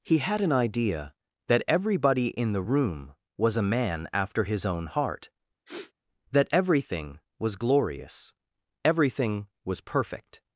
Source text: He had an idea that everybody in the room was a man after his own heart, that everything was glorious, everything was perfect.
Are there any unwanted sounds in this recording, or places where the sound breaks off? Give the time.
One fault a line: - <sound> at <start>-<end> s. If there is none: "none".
- sniff at 5.7-5.9 s